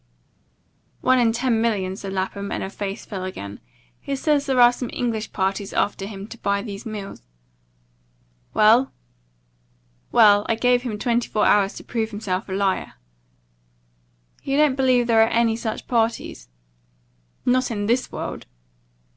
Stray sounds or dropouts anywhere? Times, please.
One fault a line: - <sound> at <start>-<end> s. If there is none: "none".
none